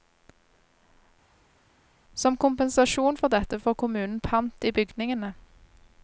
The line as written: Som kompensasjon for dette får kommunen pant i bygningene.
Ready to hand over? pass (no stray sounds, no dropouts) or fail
pass